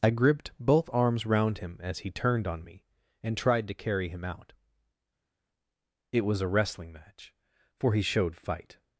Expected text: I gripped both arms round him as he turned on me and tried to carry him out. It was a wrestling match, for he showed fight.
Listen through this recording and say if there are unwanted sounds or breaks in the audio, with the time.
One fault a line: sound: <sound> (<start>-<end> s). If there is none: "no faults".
no faults